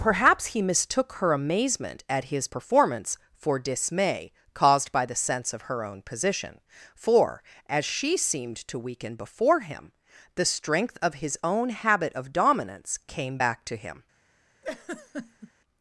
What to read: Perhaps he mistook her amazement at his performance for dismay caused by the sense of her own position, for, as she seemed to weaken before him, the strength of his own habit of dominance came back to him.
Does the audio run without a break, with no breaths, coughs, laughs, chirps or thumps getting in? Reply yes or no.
no